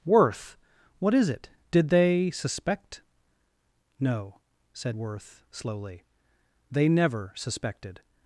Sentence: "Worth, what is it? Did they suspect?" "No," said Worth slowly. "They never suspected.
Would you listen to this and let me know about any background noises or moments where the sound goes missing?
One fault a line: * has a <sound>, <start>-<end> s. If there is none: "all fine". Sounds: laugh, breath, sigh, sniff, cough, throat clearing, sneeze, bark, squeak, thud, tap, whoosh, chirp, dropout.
all fine